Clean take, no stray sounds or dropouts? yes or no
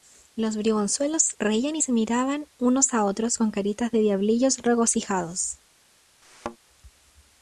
no